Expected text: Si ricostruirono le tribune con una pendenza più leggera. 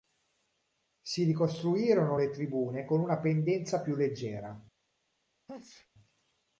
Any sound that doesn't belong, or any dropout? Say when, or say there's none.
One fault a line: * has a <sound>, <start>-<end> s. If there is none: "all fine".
* has a sneeze, 5.5-5.9 s